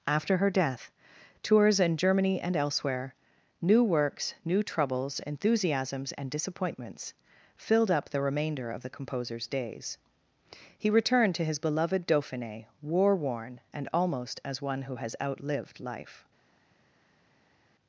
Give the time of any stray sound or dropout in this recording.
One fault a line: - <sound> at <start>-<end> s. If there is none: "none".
none